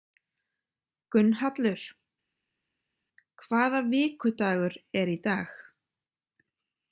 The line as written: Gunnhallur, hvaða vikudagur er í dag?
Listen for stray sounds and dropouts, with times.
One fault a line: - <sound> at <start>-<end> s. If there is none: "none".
none